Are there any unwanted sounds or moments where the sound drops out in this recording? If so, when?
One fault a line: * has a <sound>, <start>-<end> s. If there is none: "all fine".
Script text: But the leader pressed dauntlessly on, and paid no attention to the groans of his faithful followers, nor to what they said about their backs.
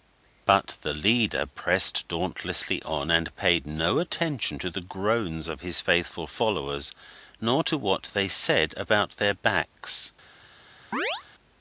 * has a chirp, 10.9-11.2 s